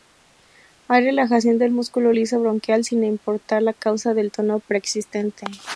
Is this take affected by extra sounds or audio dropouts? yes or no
no